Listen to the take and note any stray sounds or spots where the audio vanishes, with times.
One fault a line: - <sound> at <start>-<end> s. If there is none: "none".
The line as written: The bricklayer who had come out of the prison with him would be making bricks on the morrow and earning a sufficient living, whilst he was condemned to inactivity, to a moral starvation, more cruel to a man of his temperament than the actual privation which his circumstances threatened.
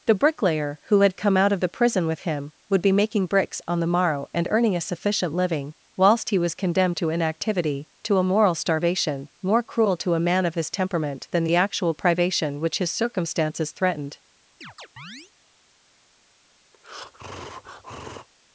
- chirp at 14.6-15.3 s
- breath at 16.7-18.3 s